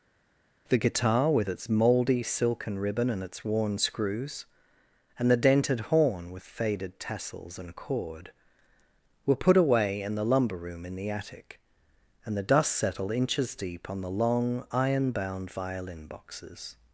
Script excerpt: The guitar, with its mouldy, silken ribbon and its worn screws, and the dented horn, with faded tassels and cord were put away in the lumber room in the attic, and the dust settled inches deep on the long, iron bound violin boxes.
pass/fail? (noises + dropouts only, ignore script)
pass